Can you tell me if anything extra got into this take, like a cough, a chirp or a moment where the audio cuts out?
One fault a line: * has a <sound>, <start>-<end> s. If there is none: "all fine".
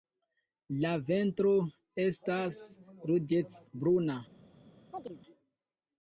* has a chirp, 4.9-5.2 s